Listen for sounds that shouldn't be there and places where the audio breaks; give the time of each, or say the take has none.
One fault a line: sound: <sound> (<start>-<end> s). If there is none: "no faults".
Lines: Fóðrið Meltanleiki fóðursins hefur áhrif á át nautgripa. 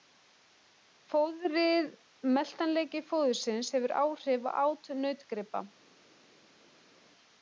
no faults